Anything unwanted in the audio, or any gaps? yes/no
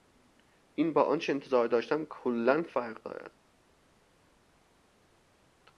no